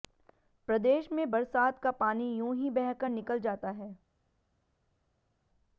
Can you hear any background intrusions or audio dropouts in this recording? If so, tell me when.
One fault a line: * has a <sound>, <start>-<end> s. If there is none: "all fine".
all fine